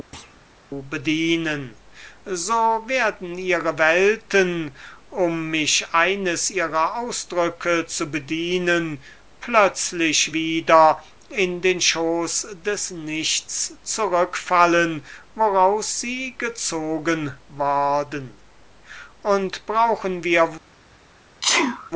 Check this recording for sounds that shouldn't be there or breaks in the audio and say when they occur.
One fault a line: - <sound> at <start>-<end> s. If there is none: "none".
- thud at 0.1-0.5 s
- sneeze at 21.4-21.9 s